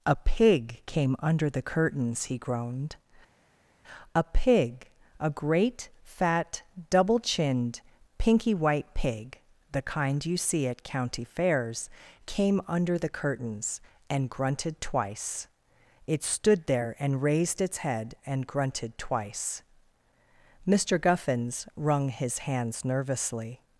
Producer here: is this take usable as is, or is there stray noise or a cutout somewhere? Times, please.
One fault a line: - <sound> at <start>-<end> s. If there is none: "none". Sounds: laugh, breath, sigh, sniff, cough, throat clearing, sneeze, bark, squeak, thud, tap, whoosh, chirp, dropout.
none